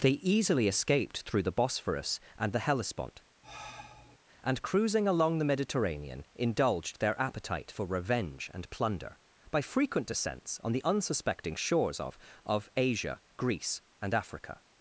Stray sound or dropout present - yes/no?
yes